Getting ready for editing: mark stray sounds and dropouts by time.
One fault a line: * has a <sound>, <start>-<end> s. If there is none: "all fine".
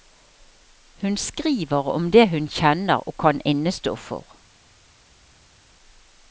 all fine